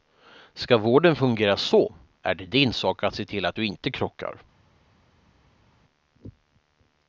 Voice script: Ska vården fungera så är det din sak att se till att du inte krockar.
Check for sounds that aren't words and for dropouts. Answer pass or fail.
pass